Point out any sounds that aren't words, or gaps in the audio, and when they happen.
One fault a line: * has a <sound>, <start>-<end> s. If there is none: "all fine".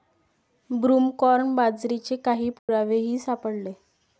* has a dropout, 2.6-2.7 s